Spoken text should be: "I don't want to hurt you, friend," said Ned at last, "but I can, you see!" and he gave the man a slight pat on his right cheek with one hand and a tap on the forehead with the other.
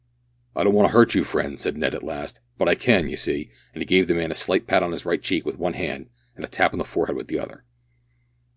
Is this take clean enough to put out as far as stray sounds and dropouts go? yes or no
yes